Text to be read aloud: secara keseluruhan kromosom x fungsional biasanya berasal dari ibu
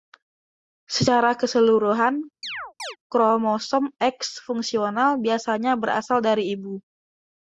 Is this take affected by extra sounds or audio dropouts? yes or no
yes